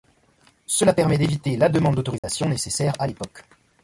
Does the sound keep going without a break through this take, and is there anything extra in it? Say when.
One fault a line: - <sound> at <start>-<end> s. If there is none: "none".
- dropout at 2.2-2.2 s